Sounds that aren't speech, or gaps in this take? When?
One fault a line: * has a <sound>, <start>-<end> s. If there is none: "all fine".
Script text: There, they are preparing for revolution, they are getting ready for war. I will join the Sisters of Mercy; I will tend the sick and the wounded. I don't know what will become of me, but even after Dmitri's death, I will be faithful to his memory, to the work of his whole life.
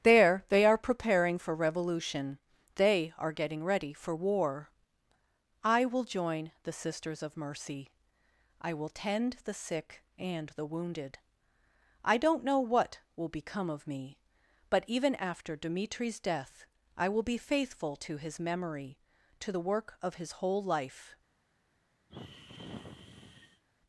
* has a sigh, 22.1-23.6 s